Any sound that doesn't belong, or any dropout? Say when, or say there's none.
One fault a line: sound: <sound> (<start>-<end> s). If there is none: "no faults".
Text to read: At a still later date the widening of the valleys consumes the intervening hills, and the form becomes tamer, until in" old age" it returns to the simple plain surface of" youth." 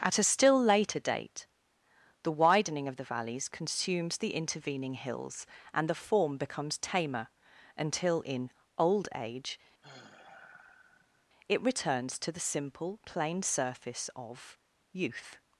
sound: sigh (9.8-11.3 s)